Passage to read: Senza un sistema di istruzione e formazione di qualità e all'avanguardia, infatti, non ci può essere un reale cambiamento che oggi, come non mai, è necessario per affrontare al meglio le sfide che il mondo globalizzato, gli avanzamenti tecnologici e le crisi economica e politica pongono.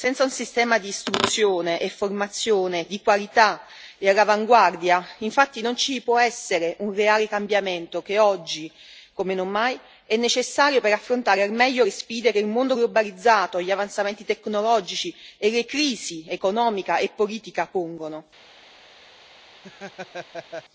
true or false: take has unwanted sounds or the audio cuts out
true